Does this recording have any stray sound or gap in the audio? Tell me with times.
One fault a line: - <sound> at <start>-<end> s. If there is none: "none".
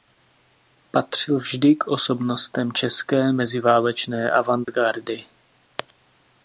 - dropout at 4.6-4.7 s